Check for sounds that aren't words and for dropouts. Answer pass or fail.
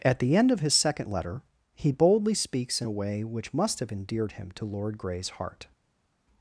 pass